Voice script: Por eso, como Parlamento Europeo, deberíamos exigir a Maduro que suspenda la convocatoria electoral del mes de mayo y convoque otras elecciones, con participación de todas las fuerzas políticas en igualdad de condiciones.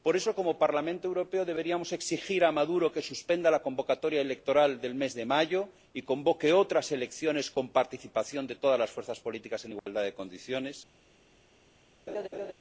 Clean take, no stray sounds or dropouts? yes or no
no